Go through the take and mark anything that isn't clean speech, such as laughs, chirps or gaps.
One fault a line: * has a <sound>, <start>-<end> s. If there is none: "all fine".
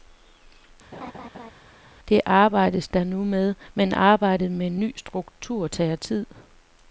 * has a laugh, 0.9-1.5 s